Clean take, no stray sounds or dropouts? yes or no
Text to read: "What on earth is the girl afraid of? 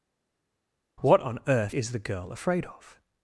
yes